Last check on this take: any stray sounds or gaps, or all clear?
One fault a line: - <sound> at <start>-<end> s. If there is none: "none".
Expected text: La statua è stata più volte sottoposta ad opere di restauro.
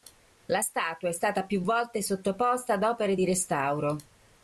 none